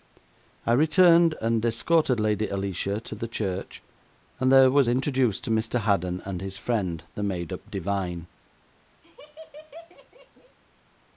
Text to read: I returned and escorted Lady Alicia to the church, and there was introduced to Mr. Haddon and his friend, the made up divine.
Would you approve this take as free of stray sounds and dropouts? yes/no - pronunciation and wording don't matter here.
no